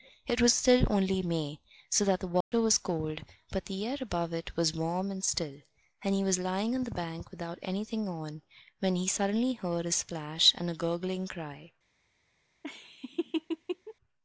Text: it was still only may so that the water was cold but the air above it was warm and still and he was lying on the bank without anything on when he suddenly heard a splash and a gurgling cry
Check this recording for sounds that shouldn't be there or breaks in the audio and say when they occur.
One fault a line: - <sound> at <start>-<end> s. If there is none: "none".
- dropout at 2.4-2.5 s
- laugh at 12.6-13.9 s